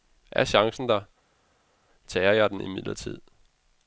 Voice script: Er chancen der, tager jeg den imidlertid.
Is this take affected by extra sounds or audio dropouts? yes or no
no